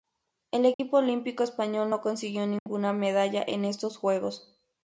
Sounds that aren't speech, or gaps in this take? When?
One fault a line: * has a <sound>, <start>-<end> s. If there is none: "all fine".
* has a dropout, 0.7-0.8 s
* has a dropout, 2.6-2.7 s